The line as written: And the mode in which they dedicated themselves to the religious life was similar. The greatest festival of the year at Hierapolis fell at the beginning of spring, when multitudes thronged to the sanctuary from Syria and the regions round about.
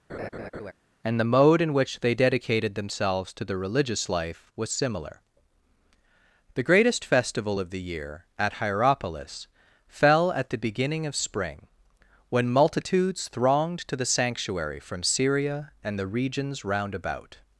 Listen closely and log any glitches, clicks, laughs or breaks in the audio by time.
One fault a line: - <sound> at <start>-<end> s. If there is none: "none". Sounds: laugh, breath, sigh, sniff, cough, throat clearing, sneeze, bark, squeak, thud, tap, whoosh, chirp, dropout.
- laugh at 0.1-0.7 s